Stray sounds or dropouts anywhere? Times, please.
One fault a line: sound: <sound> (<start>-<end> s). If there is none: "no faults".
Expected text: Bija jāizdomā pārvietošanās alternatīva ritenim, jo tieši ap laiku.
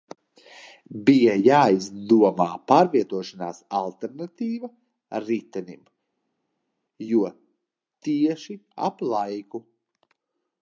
no faults